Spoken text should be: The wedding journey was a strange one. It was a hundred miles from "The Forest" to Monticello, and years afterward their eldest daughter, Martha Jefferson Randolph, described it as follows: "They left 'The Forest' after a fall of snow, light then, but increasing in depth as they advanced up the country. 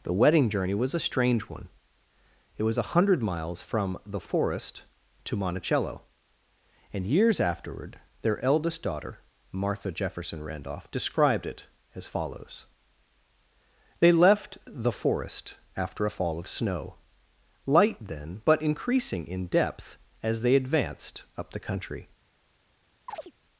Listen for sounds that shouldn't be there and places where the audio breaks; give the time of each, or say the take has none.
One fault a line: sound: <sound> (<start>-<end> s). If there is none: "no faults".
sound: chirp (23.1-23.3 s)